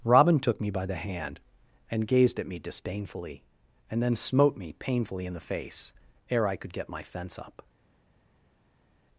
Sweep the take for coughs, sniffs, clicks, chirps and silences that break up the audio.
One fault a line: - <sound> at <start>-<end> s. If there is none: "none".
none